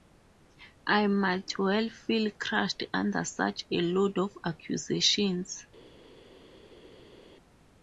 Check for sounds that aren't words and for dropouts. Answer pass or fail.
pass